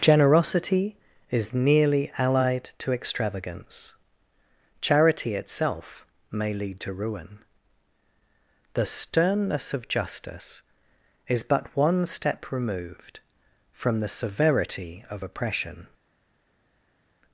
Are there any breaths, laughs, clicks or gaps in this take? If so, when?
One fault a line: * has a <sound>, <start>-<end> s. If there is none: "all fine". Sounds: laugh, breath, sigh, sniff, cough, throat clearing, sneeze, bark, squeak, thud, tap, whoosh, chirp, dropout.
all fine